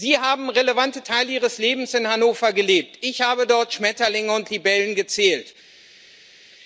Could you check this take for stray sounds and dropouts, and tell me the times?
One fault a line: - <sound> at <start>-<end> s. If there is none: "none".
none